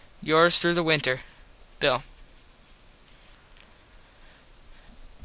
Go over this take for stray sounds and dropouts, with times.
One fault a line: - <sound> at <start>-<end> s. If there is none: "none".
none